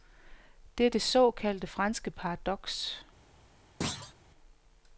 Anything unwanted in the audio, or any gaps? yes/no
yes